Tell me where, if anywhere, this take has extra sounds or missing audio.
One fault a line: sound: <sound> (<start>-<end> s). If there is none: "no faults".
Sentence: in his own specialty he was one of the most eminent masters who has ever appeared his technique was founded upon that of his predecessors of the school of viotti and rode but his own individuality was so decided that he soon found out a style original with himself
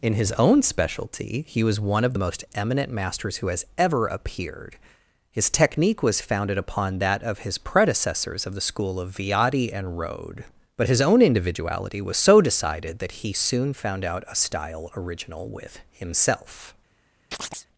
sound: chirp (17.3-17.7 s)